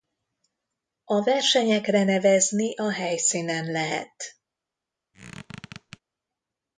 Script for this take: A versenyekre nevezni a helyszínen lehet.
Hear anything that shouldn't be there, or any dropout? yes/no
yes